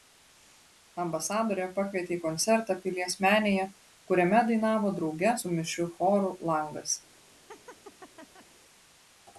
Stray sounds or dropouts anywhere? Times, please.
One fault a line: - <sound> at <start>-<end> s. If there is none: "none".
- laugh at 7.5-8.5 s